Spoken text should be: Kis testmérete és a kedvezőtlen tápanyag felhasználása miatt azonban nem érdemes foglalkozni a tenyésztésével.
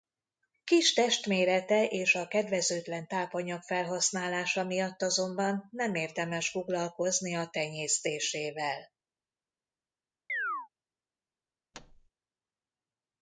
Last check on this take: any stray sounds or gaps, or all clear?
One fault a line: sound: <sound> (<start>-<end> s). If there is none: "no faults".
sound: chirp (10.3-10.7 s)
sound: thud (11.7-12.1 s)